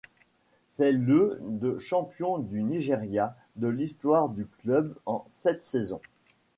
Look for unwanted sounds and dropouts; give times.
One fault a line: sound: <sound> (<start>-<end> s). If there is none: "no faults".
no faults